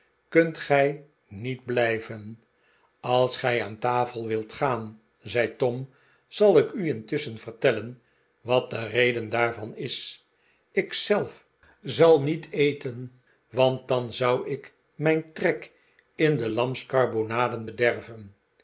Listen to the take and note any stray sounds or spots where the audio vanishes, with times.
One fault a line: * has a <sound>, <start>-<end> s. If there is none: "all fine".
all fine